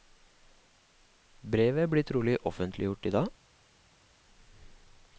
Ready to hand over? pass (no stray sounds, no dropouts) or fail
pass